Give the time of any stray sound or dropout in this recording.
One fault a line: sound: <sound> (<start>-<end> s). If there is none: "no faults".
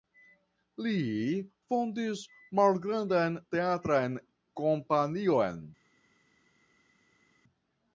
no faults